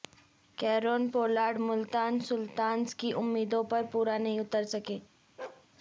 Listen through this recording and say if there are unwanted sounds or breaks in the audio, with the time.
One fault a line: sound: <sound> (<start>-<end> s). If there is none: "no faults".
sound: bark (5.4-5.7 s)